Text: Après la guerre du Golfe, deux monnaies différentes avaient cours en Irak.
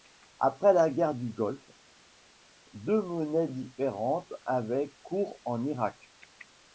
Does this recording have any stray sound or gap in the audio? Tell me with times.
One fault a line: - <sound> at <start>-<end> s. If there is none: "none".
none